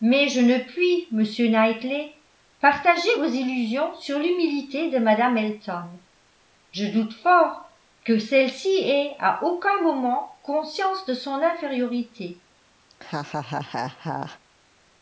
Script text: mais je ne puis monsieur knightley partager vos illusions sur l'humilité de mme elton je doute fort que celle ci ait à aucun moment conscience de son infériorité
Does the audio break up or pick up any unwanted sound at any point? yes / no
yes